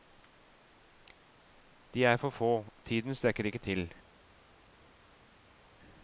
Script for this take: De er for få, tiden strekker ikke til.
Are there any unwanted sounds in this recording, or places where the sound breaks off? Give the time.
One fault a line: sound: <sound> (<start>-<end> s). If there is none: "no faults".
no faults